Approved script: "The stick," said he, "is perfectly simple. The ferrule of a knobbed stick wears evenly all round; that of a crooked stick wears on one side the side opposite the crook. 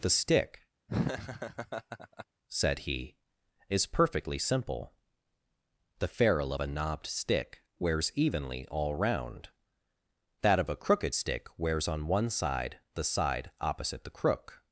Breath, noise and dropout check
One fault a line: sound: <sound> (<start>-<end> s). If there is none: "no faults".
sound: laugh (0.9-2.3 s)